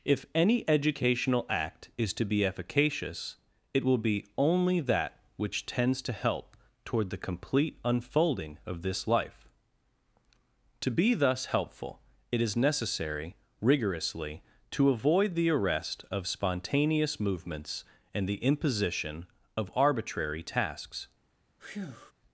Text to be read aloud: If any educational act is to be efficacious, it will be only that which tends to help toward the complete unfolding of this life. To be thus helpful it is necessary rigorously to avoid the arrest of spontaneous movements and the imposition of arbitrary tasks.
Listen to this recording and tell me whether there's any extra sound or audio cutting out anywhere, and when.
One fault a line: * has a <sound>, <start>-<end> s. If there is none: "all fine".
* has a breath, 21.6-22.1 s